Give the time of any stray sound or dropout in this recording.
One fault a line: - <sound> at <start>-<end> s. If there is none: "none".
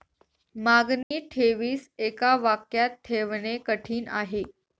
- dropout at 1.0-1.1 s